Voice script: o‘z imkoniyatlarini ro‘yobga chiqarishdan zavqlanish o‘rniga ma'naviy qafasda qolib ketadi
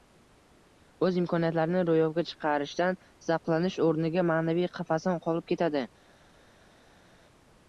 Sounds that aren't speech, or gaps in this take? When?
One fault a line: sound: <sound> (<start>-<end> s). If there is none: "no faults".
no faults